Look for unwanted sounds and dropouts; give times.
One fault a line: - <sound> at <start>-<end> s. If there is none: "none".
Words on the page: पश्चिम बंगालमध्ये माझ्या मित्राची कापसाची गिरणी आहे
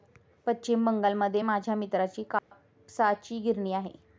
- dropout at 2.4-2.5 s